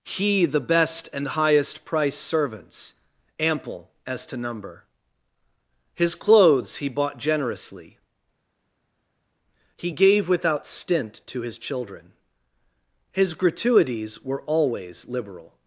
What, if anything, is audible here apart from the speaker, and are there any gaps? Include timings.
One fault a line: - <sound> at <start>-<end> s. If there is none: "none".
none